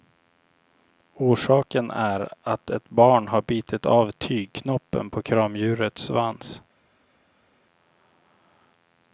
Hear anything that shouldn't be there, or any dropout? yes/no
no